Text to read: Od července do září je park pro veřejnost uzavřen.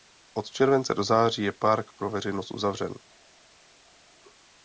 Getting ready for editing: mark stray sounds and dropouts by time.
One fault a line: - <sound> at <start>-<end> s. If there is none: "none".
none